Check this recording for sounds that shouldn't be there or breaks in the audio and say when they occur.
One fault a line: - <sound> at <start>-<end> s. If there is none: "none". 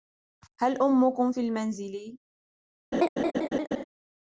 - laugh at 2.9-3.8 s